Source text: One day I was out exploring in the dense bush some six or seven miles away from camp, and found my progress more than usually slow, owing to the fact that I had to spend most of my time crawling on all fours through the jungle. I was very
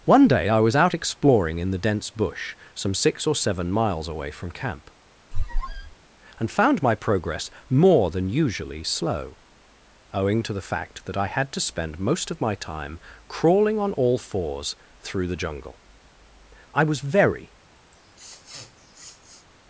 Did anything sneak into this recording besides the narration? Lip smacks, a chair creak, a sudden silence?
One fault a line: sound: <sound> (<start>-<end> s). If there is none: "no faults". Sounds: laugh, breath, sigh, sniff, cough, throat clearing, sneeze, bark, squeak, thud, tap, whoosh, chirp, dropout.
sound: squeak (5.3-6.0 s)
sound: sniff (17.9-19.5 s)